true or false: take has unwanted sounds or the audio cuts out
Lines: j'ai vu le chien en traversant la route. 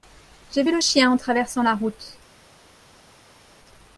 false